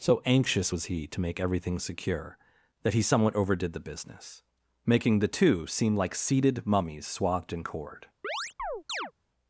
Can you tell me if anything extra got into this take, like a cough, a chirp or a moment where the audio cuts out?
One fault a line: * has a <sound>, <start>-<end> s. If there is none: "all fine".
* has a chirp, 8.2-9.1 s